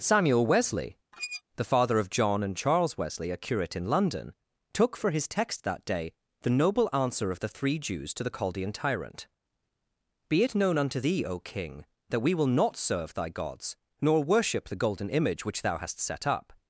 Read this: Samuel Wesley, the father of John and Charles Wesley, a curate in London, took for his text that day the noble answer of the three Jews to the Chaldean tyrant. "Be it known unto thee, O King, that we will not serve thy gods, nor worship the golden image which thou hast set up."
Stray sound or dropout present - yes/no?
yes